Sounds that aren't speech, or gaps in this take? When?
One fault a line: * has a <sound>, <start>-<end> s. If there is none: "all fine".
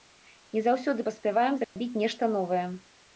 * has a dropout, 1.6-1.8 s